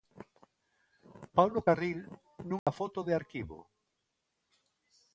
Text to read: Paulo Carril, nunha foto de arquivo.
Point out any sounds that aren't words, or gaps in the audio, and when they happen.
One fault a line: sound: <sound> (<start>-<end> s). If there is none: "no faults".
sound: dropout (2.6-2.7 s)